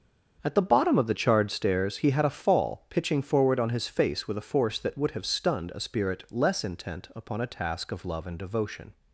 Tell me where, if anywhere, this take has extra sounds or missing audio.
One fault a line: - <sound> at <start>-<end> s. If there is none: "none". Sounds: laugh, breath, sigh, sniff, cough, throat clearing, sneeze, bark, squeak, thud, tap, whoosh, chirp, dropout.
none